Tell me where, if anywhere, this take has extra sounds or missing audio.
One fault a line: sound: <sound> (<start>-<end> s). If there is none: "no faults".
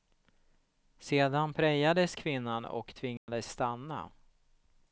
sound: dropout (3.2-3.3 s)